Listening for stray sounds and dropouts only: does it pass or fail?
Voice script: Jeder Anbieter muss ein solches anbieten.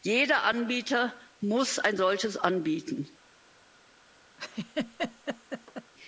fail